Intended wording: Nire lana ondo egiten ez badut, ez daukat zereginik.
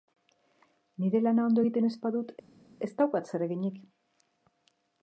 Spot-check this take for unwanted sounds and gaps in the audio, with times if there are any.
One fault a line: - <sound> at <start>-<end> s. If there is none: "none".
none